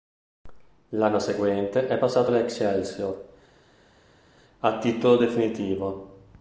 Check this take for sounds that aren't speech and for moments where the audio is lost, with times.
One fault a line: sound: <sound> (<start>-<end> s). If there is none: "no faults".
no faults